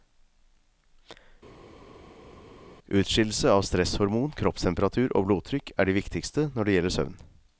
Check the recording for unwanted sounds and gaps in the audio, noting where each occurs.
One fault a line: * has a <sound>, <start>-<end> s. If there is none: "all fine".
all fine